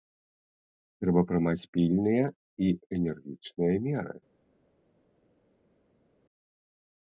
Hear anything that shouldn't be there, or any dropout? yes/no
no